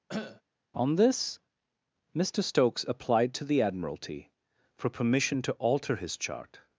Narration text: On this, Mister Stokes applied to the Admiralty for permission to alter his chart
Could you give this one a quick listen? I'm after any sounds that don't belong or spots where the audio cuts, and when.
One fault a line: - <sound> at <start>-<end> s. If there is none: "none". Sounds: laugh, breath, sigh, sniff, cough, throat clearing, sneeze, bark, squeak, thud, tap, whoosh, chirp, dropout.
- cough at 0.1-0.4 s